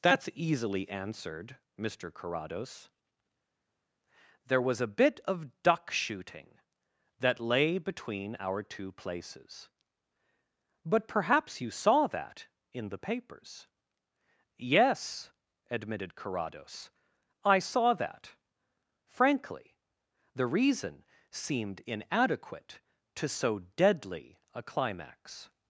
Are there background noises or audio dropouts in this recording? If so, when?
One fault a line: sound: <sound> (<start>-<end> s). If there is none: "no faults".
no faults